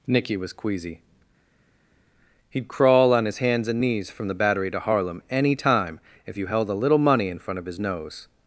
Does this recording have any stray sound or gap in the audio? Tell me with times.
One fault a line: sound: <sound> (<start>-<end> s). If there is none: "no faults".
no faults